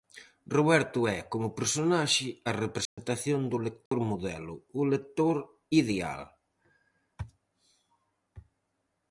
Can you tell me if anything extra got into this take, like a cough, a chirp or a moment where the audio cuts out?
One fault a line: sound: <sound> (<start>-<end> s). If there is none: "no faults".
sound: dropout (2.9-3.0 s)
sound: dropout (3.9-3.9 s)